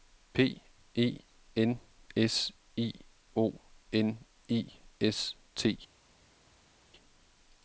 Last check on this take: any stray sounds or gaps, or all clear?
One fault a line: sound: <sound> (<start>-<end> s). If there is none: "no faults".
no faults